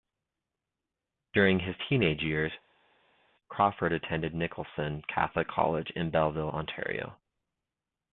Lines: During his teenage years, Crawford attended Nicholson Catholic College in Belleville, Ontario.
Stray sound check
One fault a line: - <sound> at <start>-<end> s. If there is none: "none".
none